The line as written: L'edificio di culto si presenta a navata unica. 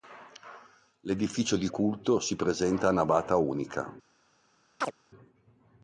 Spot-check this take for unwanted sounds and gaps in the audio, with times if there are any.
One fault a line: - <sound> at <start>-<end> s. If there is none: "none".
- chirp at 4.8-4.9 s